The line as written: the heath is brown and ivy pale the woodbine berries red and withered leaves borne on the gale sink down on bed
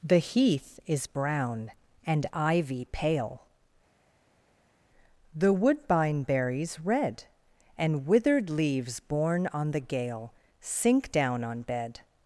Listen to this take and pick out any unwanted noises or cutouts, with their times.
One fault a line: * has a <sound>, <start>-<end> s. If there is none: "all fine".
all fine